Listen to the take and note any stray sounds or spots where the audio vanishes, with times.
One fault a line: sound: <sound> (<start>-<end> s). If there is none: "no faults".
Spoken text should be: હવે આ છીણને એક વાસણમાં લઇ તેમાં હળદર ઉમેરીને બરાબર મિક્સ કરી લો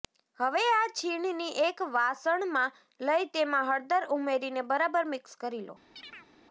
sound: chirp (6.0-6.3 s)